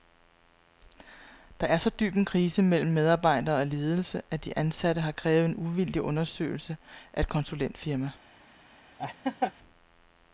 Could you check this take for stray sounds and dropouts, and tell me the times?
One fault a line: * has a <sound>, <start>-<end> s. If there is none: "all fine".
* has a laugh, 9.0-9.5 s